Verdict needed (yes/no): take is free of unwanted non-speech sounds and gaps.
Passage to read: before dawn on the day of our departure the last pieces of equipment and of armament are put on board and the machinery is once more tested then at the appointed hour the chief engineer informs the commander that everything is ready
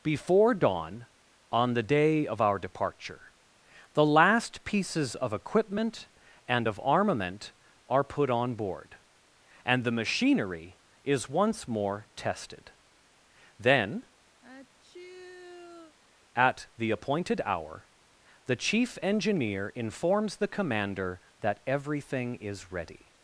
no